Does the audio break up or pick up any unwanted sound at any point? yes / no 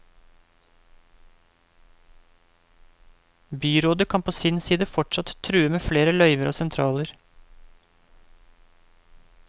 no